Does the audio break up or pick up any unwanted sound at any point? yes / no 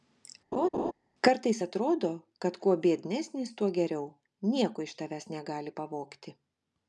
yes